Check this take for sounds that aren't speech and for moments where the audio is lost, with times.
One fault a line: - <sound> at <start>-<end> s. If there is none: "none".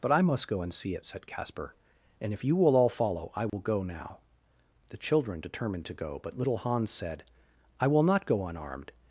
- dropout at 3.5-3.5 s